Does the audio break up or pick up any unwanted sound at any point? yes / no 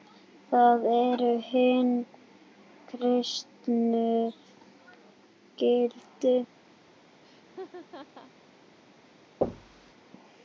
yes